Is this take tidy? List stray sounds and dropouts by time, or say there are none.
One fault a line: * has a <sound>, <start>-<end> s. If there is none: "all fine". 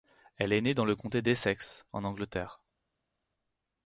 all fine